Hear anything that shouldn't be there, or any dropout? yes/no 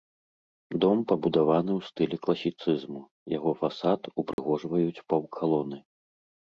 yes